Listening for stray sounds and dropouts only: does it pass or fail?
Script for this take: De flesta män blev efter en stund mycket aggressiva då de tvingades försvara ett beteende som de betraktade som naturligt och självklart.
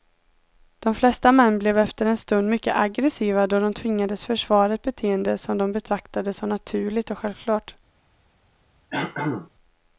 fail